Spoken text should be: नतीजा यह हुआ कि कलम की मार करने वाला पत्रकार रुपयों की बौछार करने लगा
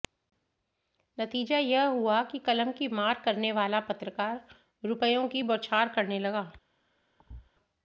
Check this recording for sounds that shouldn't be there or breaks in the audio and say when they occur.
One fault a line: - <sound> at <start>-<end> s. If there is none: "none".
- thud at 7.2-7.5 s